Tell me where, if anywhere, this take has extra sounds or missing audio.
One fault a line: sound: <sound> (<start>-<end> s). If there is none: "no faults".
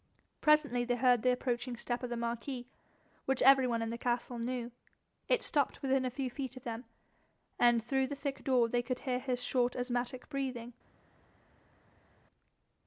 no faults